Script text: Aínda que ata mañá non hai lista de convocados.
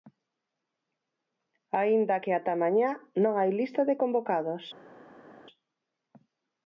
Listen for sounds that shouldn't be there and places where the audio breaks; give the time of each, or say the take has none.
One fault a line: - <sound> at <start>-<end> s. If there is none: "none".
none